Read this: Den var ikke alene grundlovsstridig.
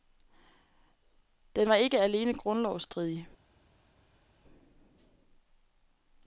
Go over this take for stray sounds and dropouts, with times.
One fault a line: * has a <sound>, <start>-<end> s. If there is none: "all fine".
all fine